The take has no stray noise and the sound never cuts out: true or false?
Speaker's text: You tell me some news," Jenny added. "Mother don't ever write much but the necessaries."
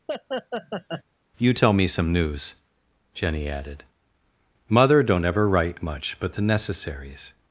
false